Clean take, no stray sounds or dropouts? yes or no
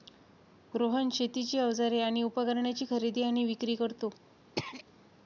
no